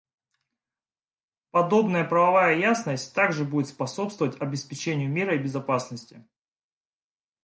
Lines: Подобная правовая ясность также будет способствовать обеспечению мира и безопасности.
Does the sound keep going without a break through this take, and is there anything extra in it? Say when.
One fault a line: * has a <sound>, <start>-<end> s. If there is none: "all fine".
all fine